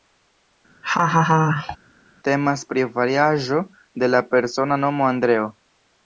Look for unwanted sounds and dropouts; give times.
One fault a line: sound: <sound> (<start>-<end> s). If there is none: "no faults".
sound: laugh (0.8-1.8 s)